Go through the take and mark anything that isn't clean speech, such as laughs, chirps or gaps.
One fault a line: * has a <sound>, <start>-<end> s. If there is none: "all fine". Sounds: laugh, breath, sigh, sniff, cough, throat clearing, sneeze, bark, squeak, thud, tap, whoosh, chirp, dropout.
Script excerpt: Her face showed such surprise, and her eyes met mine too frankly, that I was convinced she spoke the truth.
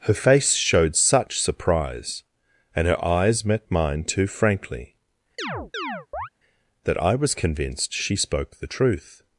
* has a chirp, 5.4-6.3 s